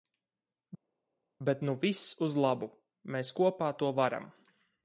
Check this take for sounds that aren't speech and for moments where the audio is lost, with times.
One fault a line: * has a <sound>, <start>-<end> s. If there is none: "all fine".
all fine